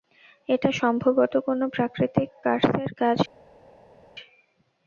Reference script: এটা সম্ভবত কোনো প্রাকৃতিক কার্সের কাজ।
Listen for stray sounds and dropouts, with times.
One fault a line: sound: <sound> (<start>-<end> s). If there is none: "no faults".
no faults